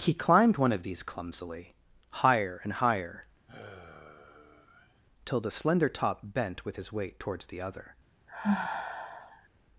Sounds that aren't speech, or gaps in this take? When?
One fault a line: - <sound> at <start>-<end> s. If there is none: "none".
- sigh at 3.5-5.0 s
- sigh at 8.3-9.5 s